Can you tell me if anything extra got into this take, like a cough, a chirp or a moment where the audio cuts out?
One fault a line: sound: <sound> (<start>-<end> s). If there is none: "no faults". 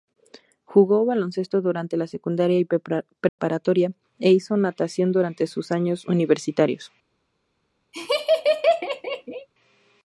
sound: dropout (3.3-3.4 s)
sound: laugh (7.9-9.5 s)